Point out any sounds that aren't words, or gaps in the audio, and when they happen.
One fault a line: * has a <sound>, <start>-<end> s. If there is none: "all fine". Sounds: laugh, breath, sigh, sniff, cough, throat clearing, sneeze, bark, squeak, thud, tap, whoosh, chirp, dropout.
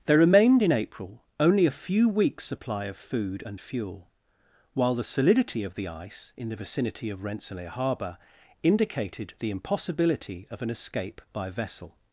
all fine